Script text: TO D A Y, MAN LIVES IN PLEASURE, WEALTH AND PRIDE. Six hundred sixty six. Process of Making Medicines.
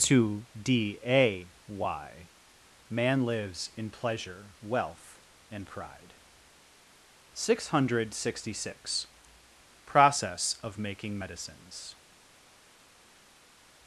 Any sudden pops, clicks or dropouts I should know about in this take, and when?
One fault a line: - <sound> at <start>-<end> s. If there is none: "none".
none